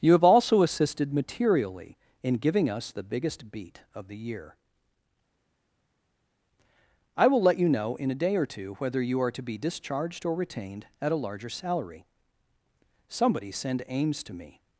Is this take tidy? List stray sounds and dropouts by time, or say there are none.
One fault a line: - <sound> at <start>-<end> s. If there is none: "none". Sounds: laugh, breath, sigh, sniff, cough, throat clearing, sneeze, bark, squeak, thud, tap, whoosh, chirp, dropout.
none